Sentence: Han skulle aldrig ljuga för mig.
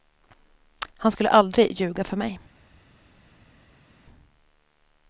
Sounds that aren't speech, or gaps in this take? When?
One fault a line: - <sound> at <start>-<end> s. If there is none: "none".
none